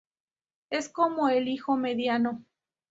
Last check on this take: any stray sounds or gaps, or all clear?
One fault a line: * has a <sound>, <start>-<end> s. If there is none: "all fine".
all fine